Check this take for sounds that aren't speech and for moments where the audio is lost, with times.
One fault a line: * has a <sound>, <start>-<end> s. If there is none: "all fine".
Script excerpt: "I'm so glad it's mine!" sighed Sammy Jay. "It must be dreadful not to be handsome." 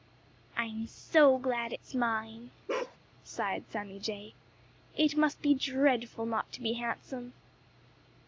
* has a bark, 2.7-3.0 s